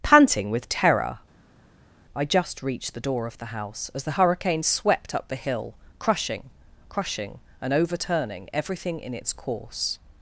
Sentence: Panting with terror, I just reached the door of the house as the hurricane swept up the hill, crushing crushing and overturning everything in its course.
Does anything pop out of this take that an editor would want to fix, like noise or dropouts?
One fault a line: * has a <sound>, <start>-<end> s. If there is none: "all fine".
all fine